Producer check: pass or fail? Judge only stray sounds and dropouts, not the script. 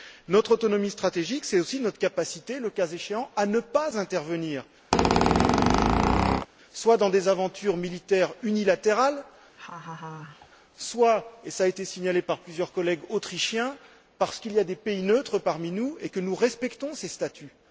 fail